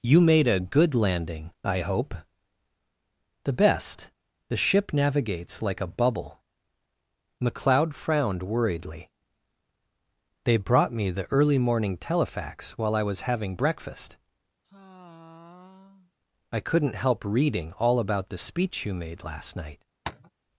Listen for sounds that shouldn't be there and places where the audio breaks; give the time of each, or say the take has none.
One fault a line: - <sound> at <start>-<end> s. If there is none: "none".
- sigh at 14.6-16.1 s
- tap at 20.1-20.3 s